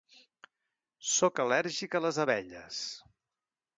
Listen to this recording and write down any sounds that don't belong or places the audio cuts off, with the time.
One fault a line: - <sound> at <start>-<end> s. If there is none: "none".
none